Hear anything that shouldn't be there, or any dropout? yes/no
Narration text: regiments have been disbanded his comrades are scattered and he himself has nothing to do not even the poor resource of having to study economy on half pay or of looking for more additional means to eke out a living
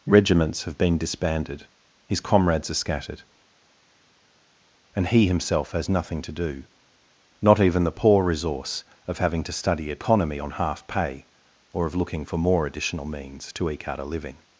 no